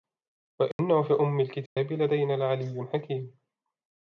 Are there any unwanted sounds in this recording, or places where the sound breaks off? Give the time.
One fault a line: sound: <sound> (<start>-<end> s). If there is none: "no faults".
sound: dropout (0.7-0.8 s)
sound: dropout (1.7-1.8 s)